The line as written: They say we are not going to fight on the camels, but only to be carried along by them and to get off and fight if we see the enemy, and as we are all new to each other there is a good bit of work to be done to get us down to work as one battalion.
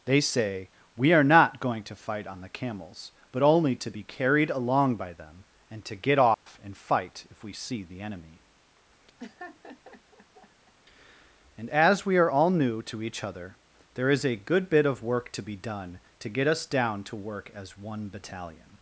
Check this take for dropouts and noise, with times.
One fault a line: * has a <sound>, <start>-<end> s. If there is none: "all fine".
* has a dropout, 6.3-6.5 s
* has a laugh, 9.2-10.7 s